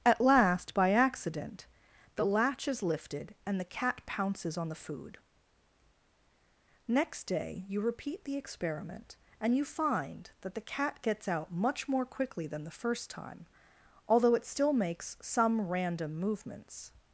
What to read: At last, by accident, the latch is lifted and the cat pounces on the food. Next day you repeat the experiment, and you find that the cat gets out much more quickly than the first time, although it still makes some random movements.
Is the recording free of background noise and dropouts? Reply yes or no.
yes